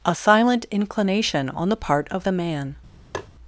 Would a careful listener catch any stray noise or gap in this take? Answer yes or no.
yes